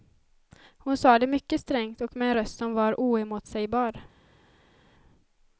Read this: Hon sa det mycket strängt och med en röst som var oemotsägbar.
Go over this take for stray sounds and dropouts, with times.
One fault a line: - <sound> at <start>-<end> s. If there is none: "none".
none